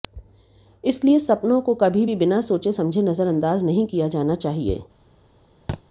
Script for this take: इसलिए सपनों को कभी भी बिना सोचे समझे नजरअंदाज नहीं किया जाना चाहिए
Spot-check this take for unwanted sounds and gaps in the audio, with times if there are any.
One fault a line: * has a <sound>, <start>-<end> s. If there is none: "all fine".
* has a thud, 5.7-5.8 s